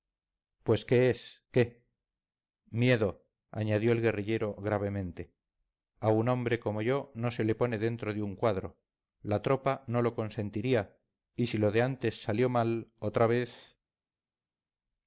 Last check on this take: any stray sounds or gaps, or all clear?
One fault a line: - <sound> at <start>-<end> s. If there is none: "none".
none